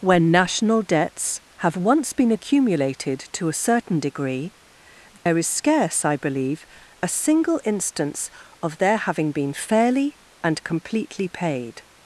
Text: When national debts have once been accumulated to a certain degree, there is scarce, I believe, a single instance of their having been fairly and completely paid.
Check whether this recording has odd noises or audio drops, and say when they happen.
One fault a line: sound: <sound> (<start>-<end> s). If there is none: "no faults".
sound: dropout (5.2-5.3 s)